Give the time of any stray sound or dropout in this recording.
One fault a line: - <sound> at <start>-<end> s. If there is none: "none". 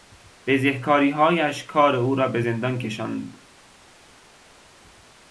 none